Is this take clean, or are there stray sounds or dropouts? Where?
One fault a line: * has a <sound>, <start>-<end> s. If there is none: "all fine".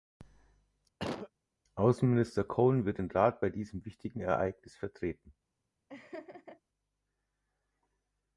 * has a cough, 1.0-1.3 s
* has a laugh, 5.9-6.6 s